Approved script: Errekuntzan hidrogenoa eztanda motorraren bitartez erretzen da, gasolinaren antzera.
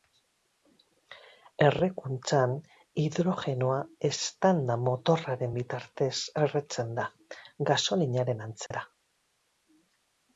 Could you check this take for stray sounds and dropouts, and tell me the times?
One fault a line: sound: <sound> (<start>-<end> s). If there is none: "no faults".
sound: dropout (8.7-8.7 s)